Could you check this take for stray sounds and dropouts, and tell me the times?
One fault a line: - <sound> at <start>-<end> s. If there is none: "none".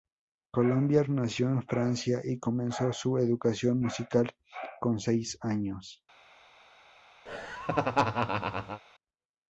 - laugh at 7.3-8.8 s